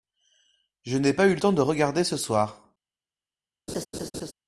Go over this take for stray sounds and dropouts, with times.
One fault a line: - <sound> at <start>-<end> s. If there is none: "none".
- laugh at 3.7-4.3 s